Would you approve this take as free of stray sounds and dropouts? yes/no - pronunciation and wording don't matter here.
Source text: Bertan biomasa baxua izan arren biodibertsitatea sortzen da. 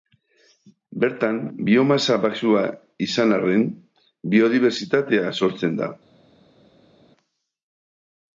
yes